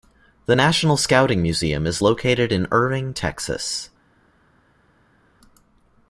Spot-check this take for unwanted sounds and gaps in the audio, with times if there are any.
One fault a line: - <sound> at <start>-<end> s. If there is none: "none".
none